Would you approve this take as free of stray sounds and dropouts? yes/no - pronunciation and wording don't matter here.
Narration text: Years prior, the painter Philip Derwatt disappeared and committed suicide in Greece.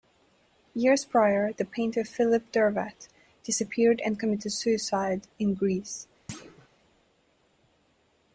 no